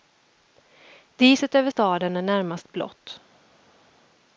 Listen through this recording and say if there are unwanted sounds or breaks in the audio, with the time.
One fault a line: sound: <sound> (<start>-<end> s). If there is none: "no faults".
no faults